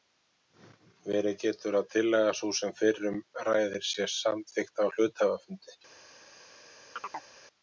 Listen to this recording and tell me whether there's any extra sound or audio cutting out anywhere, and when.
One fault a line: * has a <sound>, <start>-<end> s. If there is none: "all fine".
* has a chirp, 7.0-7.3 s